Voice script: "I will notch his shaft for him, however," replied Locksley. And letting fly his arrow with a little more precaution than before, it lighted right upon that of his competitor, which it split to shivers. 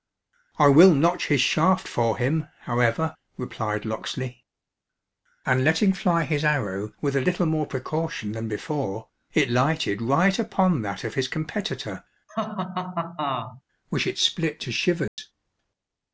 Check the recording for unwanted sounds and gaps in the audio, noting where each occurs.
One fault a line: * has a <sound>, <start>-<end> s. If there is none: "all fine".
* has a laugh, 12.3-13.6 s
* has a dropout, 15.1-15.2 s